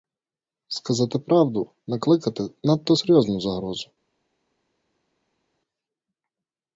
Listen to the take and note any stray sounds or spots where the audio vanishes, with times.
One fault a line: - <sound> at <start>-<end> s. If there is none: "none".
none